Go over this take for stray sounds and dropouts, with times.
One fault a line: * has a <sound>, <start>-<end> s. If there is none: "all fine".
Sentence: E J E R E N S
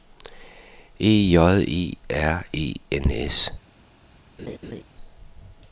* has a laugh, 4.4-4.8 s